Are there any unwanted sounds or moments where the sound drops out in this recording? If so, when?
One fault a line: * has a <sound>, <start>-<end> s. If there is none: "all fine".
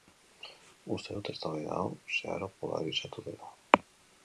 all fine